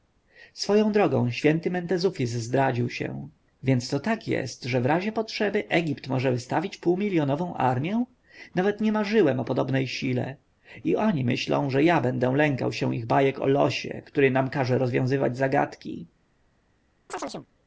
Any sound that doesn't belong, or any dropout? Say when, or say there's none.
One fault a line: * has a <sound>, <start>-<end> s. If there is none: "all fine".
* has a chirp, 17.1-17.5 s